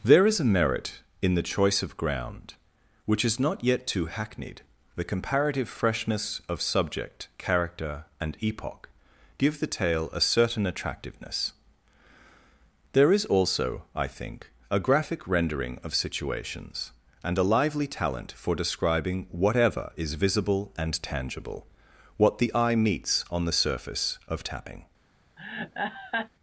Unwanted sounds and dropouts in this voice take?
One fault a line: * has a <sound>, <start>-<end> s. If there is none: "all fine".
* has a laugh, 25.4-26.3 s